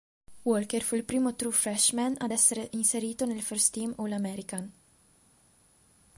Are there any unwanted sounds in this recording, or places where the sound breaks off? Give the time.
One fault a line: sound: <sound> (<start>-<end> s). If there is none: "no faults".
no faults